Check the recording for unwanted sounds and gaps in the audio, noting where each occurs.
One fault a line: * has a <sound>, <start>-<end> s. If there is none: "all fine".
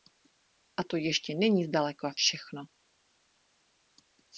all fine